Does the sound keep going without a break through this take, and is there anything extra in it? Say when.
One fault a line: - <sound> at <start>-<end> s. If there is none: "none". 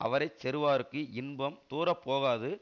none